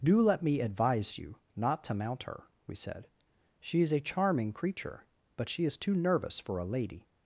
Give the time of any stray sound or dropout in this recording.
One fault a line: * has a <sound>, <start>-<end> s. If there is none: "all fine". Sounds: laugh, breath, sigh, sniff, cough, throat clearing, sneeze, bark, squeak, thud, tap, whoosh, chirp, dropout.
all fine